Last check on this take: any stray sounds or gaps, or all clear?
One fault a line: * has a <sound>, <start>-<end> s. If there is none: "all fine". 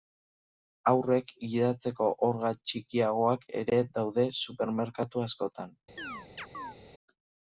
* has a chirp, 6.0-6.8 s